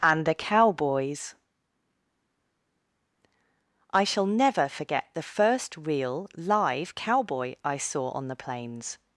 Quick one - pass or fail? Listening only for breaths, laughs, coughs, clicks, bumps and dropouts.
pass